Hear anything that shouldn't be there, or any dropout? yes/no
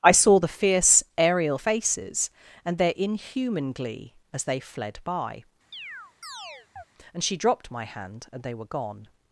yes